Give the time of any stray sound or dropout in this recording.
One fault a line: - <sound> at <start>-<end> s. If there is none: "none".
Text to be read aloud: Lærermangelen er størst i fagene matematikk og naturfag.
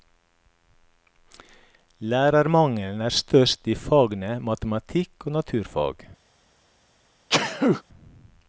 - sneeze at 7.3-7.8 s